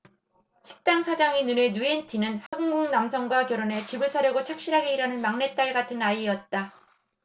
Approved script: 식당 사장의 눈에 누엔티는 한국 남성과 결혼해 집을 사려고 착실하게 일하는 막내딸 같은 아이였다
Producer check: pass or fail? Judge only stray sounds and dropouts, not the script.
fail